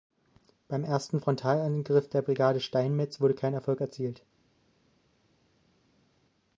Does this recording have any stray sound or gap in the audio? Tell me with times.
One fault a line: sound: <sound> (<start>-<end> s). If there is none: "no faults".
no faults